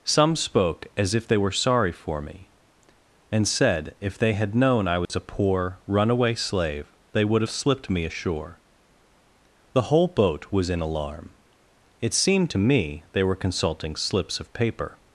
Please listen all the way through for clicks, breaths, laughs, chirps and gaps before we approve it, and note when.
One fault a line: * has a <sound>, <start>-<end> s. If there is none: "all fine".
* has a dropout, 5.1-5.1 s